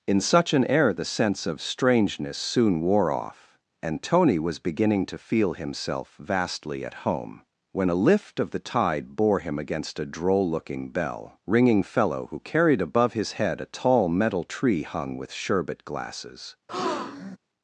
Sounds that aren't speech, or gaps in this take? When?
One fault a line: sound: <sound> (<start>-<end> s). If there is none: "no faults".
sound: breath (16.7-17.4 s)